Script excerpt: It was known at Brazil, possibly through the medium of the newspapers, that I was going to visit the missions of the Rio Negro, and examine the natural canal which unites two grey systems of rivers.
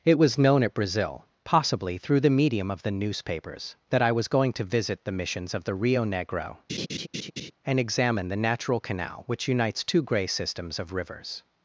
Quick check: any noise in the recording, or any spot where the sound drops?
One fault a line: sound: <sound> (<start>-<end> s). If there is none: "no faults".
sound: laugh (6.7-7.5 s)